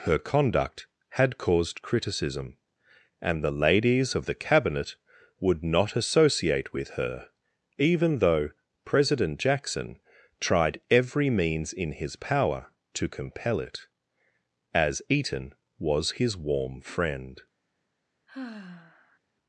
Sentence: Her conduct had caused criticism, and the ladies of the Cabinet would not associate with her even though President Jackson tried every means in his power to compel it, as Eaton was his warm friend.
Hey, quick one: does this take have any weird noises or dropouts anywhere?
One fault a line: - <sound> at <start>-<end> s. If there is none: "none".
- sigh at 18.3-19.2 s